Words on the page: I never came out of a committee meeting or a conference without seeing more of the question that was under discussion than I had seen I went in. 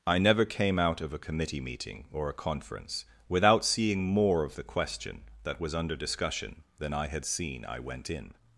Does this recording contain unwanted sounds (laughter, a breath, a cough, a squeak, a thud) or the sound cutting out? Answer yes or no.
no